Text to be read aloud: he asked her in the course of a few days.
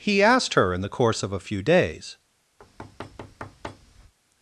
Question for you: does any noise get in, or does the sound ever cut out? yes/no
yes